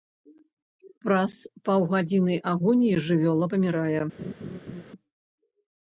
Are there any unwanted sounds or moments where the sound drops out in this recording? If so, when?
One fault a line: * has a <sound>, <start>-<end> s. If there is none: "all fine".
* has a laugh, 4.2-4.8 s